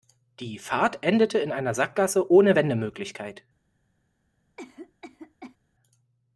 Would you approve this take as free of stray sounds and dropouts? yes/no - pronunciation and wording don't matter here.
no